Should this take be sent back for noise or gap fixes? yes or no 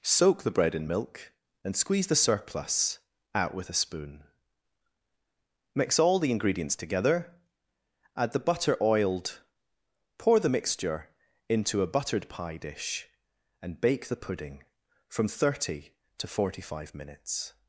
no